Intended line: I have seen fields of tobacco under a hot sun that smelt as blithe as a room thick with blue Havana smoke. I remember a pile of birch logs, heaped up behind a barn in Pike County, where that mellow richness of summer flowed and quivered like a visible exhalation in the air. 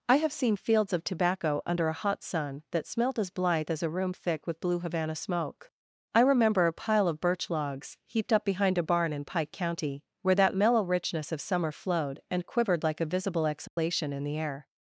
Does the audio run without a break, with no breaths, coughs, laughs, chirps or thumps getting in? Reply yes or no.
no